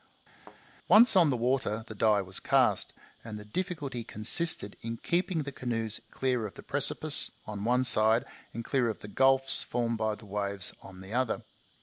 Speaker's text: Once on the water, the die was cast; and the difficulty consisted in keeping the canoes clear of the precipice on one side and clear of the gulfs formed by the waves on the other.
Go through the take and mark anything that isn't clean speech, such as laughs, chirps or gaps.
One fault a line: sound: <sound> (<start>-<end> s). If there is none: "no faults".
sound: thud (0.4-0.6 s)